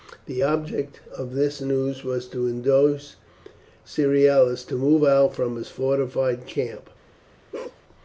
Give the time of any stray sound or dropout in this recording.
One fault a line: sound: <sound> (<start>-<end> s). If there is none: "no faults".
sound: bark (7.5-7.8 s)